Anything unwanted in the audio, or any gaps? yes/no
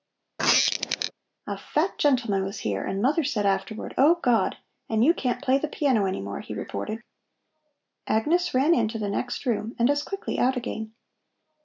yes